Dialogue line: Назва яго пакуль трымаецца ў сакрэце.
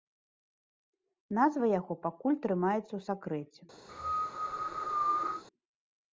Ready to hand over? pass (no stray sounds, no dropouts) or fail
fail